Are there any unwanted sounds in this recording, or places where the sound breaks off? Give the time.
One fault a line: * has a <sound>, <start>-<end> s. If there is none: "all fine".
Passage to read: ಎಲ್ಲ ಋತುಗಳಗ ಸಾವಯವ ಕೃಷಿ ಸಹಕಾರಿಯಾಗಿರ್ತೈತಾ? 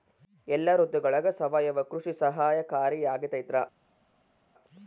all fine